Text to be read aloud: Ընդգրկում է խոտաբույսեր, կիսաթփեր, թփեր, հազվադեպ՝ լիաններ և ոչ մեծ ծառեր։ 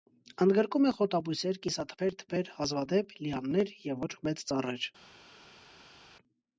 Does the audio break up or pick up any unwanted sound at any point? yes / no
no